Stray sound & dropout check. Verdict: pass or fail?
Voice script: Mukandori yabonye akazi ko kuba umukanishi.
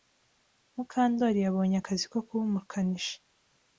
pass